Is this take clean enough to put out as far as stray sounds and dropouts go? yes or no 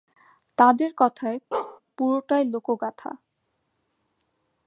no